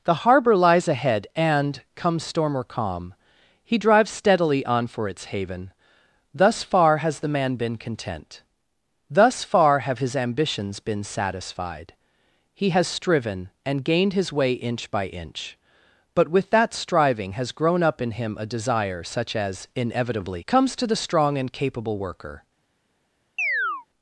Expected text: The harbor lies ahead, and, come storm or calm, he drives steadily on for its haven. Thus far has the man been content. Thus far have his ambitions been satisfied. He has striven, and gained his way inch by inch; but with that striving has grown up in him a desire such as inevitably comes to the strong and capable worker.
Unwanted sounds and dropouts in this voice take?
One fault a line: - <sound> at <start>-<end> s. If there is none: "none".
- chirp at 23.4-23.9 s